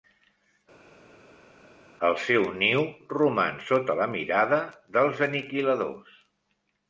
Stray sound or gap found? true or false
false